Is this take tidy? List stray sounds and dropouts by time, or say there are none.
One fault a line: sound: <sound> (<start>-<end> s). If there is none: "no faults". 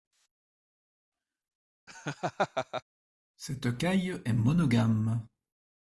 sound: laugh (1.9-2.8 s)